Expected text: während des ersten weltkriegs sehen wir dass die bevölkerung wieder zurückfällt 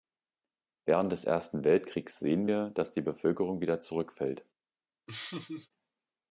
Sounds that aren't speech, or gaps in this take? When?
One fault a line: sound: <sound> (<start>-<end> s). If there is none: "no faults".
sound: laugh (5.1-5.7 s)